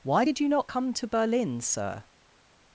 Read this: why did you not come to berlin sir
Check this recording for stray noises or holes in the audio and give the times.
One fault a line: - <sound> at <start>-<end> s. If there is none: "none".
none